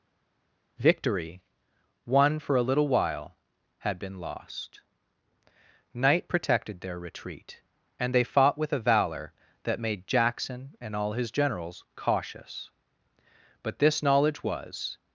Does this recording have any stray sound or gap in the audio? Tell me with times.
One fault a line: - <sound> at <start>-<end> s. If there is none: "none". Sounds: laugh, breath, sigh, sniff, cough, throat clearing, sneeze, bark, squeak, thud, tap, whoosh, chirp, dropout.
none